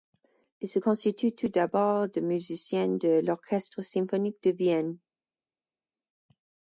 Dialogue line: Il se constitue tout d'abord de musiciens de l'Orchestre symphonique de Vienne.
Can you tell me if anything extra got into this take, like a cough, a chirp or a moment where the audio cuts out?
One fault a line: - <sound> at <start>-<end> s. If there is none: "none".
none